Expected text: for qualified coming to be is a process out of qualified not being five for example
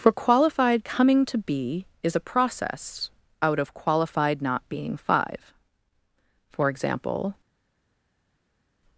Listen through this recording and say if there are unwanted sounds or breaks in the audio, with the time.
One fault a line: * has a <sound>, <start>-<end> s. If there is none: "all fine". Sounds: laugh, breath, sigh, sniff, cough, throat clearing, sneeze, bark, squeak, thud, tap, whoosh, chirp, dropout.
all fine